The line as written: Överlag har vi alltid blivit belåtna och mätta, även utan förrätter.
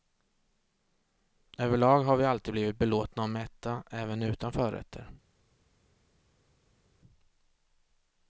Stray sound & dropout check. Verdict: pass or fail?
pass